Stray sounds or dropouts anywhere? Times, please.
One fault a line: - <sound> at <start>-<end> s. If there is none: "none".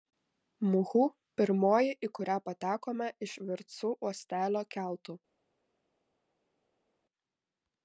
none